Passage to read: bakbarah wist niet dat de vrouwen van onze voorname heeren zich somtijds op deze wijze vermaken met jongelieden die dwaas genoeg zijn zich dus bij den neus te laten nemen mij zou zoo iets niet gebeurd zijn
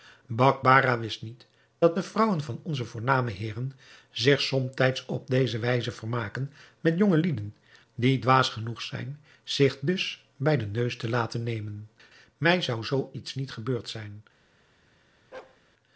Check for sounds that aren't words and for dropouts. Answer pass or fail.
fail